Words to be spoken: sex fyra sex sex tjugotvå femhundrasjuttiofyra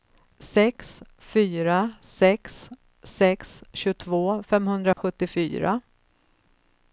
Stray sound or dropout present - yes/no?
yes